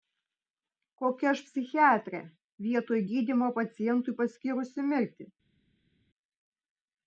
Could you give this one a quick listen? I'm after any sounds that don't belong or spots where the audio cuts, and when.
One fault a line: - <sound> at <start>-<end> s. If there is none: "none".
none